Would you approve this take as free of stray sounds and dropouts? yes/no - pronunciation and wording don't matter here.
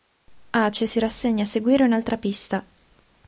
yes